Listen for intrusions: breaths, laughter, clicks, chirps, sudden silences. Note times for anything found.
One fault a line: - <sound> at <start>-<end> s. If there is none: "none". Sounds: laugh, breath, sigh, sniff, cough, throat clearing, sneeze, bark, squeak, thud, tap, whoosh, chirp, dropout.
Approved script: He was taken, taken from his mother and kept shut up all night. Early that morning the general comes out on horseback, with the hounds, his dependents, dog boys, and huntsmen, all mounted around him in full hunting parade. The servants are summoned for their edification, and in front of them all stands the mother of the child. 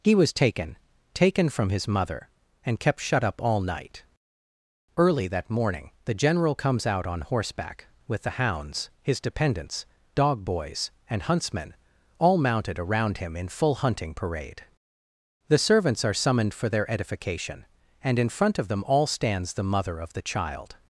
none